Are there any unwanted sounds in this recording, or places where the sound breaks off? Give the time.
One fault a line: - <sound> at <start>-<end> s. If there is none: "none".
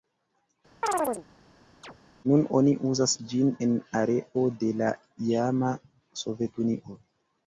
- chirp at 0.8-1.3 s
- chirp at 1.8-2.0 s